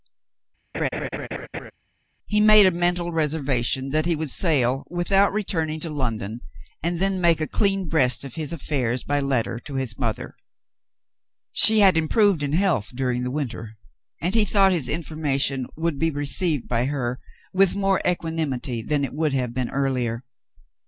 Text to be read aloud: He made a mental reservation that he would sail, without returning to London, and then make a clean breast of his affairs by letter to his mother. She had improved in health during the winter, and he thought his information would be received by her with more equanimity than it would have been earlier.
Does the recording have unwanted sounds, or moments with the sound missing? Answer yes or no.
yes